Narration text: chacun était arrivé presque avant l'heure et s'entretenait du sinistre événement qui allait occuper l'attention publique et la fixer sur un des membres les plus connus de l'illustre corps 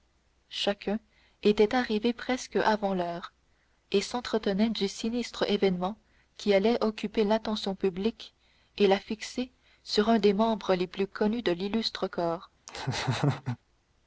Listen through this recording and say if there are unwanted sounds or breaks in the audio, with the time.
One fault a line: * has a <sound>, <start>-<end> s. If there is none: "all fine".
* has a laugh, 12.7-13.6 s